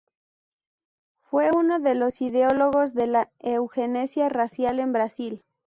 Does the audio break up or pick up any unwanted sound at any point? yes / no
no